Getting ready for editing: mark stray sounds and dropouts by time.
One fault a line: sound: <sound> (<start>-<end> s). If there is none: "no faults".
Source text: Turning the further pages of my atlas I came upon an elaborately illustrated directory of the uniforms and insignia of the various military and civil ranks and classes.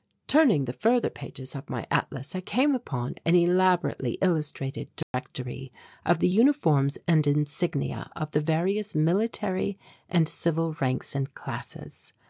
sound: dropout (5.0-5.1 s)